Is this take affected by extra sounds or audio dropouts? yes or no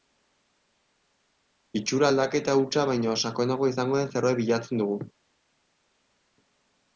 no